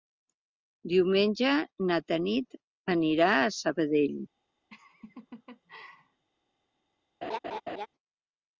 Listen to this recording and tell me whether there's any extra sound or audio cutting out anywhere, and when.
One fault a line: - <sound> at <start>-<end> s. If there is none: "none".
- laugh at 4.7-6.3 s
- laugh at 7.2-7.9 s